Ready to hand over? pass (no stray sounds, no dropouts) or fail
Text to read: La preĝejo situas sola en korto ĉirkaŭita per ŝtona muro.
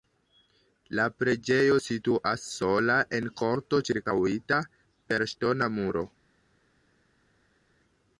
pass